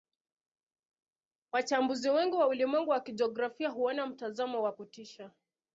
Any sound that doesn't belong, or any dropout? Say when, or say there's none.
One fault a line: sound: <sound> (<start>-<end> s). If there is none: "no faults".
no faults